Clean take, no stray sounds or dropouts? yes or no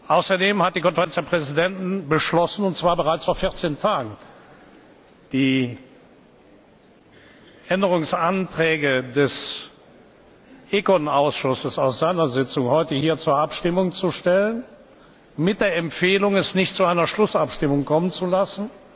yes